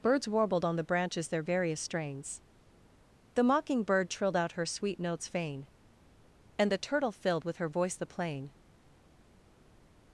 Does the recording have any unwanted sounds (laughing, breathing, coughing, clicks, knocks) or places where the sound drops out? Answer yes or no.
no